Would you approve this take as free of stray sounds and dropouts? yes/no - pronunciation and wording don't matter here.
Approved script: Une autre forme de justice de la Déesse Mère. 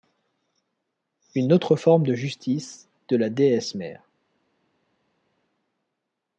yes